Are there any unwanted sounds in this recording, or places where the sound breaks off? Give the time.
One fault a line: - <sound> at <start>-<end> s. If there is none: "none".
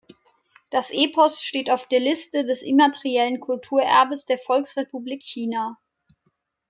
none